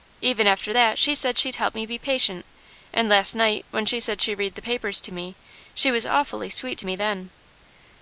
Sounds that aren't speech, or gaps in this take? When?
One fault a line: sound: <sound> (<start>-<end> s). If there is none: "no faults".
no faults